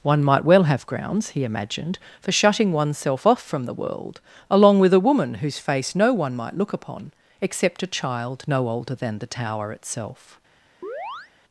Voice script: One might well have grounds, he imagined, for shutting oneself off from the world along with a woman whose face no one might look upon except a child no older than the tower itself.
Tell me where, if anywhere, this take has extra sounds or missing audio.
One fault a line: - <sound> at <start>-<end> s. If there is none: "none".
- chirp at 10.8-11.3 s